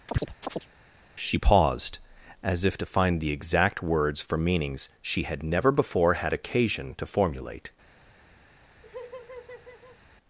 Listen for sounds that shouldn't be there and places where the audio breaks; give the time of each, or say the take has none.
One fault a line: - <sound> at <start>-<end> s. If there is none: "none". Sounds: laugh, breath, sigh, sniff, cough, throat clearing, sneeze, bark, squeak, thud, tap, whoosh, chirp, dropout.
- chirp at 0.1-0.7 s
- laugh at 8.8-10.0 s